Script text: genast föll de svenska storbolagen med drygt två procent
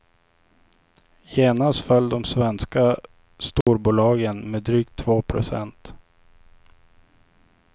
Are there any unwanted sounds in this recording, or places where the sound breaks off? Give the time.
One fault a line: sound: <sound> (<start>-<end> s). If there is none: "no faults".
sound: dropout (3.6-3.7 s)